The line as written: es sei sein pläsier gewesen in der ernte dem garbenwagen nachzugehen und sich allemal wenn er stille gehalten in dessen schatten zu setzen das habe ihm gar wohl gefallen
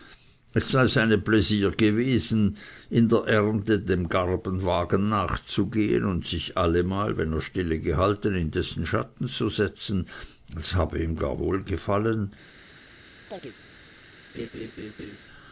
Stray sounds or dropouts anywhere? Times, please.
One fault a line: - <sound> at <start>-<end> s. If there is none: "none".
- chirp at 13.3-13.6 s
- laugh at 14.3-15.2 s